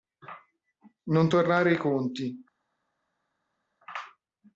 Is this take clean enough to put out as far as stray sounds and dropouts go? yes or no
yes